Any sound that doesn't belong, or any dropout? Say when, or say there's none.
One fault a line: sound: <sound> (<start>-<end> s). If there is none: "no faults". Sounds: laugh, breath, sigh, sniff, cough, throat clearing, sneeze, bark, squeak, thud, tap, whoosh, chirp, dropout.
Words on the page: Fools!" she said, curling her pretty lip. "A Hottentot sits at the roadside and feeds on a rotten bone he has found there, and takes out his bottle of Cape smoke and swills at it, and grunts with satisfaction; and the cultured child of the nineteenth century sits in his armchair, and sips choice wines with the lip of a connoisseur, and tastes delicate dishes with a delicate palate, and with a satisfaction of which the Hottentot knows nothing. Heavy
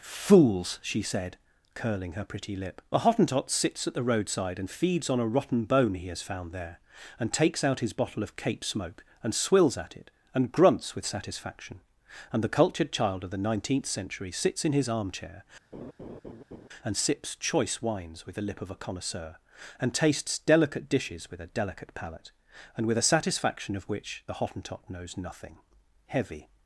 sound: laugh (15.7-16.7 s)